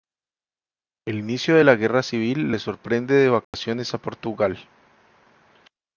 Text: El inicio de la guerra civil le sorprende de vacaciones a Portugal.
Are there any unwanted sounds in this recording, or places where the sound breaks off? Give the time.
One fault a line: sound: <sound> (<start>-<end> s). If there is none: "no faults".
sound: dropout (3.4-3.5 s)